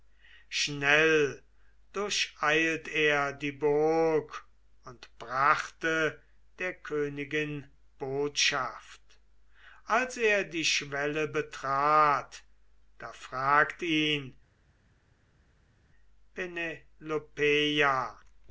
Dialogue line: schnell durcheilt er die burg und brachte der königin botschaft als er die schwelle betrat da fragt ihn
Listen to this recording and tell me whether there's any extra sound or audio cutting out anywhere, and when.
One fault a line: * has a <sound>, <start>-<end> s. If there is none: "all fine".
all fine